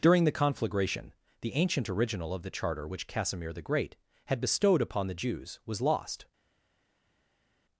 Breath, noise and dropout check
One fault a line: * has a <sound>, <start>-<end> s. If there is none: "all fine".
all fine